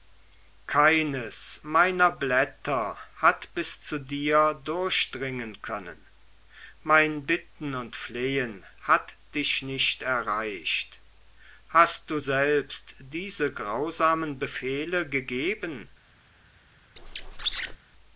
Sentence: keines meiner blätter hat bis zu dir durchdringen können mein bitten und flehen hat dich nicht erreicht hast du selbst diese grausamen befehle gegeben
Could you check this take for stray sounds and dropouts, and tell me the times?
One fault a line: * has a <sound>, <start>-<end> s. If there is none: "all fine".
* has a squeak, 17.0-17.8 s